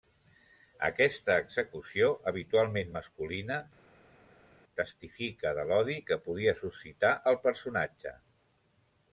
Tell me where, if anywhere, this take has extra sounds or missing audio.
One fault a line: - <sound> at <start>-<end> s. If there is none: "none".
none